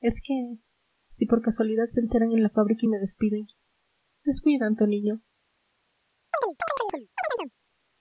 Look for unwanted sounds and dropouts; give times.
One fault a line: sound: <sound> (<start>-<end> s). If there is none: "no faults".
sound: chirp (6.3-7.5 s)